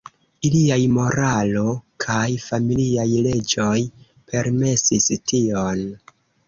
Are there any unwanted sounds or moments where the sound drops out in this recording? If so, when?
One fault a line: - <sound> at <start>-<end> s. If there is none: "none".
none